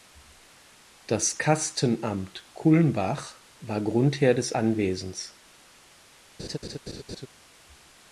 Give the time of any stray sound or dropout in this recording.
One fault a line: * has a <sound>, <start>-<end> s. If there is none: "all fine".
* has a laugh, 6.4-7.3 s